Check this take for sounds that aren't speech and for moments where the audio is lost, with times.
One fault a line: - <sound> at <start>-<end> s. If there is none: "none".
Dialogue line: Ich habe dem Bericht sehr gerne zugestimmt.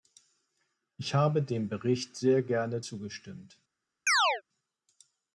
- chirp at 4.1-4.4 s